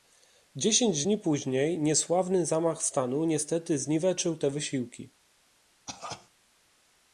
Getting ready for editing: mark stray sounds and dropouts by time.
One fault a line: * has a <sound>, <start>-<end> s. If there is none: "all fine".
* has a cough, 5.9-6.3 s